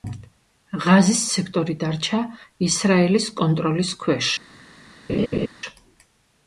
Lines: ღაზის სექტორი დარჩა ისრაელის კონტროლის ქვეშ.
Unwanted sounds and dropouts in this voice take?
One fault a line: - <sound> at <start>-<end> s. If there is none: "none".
- laugh at 5.1-5.5 s